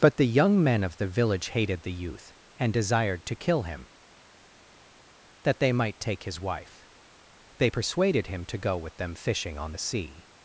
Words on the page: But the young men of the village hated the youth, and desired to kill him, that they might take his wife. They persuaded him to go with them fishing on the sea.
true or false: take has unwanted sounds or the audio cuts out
false